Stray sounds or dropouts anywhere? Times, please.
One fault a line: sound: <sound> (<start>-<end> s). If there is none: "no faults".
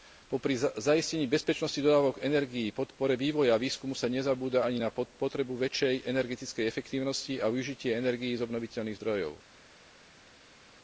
no faults